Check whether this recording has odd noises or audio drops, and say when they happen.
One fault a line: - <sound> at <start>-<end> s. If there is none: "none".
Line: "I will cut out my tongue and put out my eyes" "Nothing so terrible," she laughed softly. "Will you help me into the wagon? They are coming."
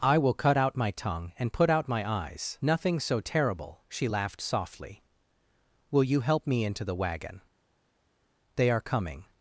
none